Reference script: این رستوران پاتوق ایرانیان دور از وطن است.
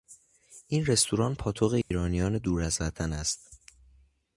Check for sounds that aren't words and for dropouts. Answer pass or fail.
fail